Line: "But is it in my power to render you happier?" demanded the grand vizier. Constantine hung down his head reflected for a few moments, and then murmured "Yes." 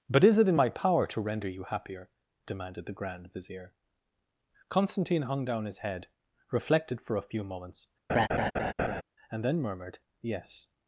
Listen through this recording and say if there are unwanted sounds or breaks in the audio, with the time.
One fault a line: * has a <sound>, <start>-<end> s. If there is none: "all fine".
* has a laugh, 8.1-9.0 s